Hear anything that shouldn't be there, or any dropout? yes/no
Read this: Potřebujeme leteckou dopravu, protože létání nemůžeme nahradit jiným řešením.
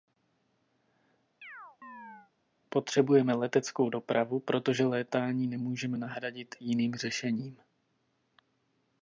yes